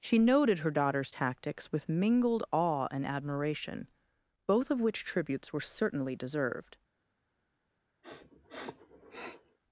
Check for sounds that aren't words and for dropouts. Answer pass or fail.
fail